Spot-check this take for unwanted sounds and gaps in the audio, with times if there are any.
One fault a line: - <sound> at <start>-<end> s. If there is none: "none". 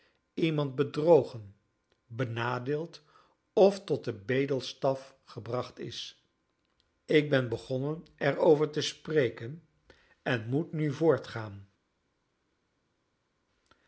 none